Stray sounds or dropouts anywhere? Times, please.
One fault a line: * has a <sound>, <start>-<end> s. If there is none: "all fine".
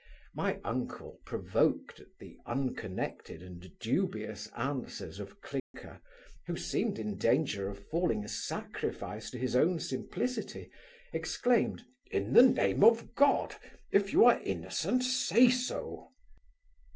* has a dropout, 5.6-5.7 s